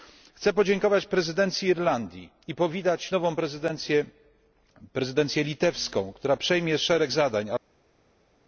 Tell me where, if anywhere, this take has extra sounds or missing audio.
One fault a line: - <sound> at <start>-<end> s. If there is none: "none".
none